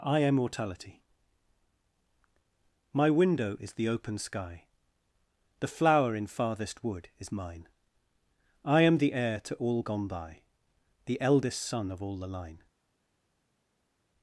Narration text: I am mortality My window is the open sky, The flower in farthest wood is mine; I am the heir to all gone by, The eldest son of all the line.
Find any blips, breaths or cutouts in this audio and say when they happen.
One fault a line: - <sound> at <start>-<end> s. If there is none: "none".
none